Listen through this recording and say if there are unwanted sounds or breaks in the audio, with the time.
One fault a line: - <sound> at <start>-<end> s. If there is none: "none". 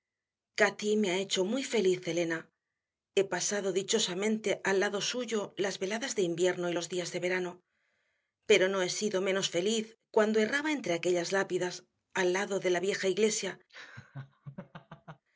- laugh at 13.7-15.2 s